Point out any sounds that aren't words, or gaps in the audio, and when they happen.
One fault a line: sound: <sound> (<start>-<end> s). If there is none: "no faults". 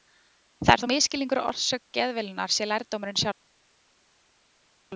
no faults